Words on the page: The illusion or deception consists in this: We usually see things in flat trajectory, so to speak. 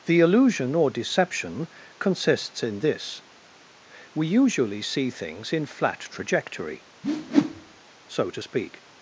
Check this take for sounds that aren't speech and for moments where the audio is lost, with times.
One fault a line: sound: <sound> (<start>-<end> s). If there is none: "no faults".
sound: whoosh (7.0-7.8 s)